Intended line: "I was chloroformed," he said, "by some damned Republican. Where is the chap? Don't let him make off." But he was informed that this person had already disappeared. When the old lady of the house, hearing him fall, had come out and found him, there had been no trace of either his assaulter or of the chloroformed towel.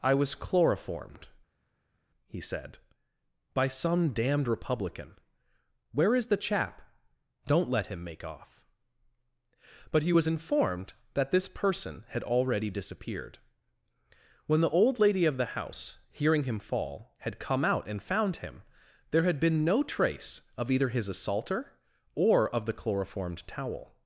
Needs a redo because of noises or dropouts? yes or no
no